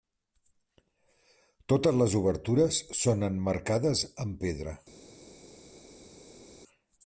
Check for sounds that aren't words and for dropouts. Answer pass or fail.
pass